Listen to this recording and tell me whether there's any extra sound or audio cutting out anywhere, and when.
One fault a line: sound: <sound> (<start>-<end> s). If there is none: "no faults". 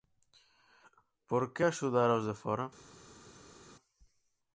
no faults